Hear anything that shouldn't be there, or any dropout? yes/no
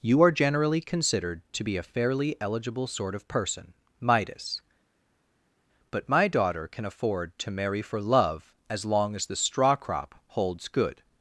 no